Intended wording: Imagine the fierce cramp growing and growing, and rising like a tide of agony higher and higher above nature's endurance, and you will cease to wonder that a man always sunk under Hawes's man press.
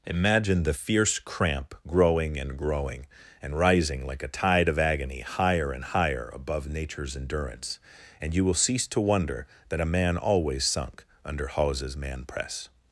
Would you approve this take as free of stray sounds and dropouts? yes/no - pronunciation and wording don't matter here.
yes